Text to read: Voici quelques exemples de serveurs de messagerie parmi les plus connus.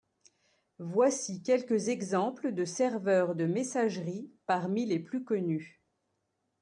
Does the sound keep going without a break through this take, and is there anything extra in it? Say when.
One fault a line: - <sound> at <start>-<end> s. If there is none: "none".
none